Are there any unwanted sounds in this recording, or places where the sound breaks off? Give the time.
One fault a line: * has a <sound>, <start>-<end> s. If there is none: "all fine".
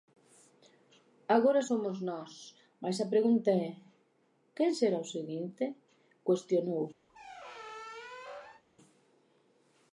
* has a squeak, 7.1-8.6 s